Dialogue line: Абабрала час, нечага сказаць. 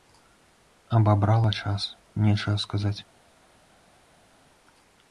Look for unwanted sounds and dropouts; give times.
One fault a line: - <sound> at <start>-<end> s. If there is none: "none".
none